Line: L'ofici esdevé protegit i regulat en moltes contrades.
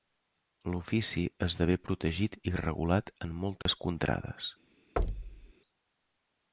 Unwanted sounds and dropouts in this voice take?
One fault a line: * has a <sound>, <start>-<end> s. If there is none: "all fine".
* has a dropout, 3.6-3.7 s
* has a thud, 5.0-5.5 s